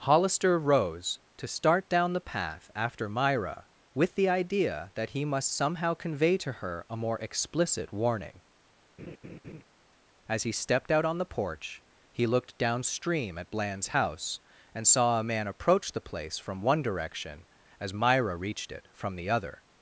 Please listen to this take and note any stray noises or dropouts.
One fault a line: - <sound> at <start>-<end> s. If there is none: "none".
- laugh at 9.0-9.6 s